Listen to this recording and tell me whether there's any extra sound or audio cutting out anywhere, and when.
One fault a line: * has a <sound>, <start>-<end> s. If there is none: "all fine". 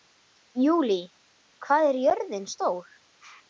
all fine